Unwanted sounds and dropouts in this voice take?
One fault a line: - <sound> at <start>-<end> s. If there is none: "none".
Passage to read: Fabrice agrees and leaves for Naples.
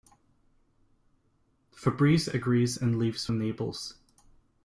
none